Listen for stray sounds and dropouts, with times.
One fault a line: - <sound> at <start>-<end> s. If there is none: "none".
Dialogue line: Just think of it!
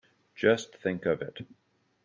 none